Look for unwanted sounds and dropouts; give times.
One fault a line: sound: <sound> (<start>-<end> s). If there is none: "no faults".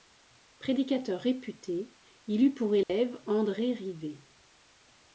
sound: dropout (2.8-2.9 s)